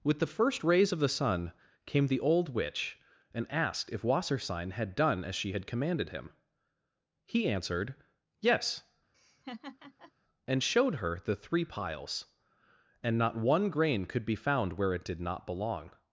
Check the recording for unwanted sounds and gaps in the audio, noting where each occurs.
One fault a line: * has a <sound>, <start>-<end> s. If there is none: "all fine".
* has a laugh, 9.1-10.1 s